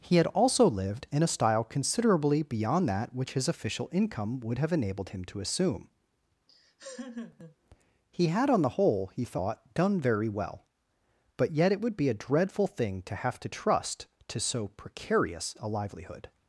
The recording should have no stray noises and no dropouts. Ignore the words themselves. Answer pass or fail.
fail